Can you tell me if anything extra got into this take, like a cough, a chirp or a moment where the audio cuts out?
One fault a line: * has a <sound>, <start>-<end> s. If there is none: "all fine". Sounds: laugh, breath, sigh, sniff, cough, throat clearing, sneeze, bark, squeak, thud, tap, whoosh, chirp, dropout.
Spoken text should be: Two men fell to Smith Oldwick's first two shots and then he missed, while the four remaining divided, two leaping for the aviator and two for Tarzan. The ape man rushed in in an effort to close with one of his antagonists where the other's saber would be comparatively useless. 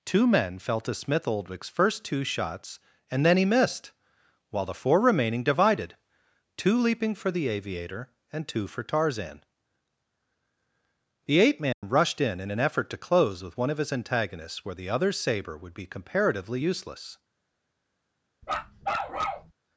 * has a dropout, 11.7-11.8 s
* has a bark, 18.4-19.5 s